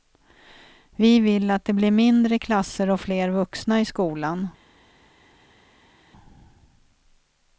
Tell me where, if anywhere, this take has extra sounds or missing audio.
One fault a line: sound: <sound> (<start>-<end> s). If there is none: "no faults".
no faults